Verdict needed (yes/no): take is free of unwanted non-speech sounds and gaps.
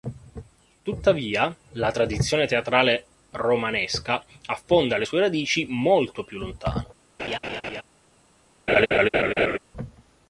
no